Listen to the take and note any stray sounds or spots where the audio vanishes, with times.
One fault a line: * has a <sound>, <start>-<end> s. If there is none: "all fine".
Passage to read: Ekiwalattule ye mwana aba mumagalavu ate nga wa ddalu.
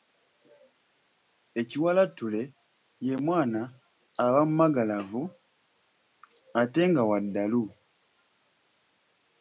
all fine